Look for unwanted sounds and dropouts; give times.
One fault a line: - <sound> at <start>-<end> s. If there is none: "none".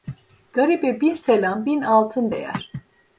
none